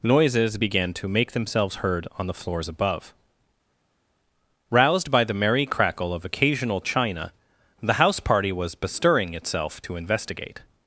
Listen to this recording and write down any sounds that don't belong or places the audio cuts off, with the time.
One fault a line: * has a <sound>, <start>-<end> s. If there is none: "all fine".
all fine